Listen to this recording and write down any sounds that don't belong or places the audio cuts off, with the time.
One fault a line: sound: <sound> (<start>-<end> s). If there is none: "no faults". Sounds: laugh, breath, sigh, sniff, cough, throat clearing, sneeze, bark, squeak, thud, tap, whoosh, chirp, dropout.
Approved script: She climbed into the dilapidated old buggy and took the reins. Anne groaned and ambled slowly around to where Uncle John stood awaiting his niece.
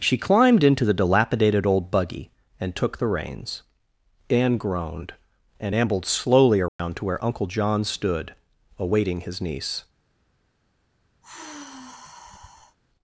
sound: dropout (6.7-6.8 s)
sound: sigh (11.2-12.8 s)